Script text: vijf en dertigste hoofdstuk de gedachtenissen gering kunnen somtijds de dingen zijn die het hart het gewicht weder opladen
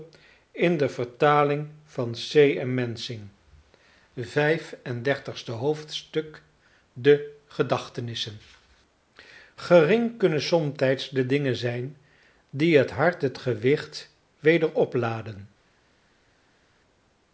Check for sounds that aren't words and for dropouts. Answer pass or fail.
pass